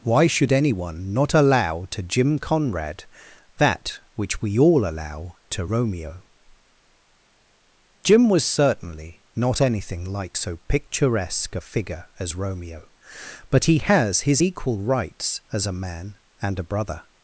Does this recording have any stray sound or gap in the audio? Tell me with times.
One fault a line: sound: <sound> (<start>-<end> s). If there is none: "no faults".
no faults